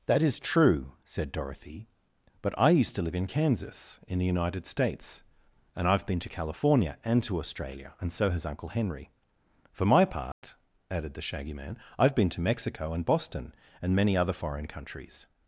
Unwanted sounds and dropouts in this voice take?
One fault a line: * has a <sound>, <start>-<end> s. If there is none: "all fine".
* has a dropout, 10.3-10.4 s